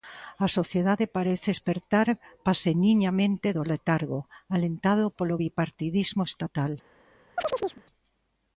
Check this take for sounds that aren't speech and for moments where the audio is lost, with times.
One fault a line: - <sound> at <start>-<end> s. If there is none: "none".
- chirp at 7.4-7.8 s